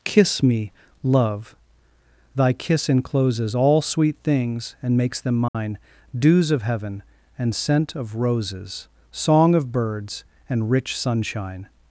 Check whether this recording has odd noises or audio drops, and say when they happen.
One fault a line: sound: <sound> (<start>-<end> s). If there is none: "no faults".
sound: dropout (5.5-5.5 s)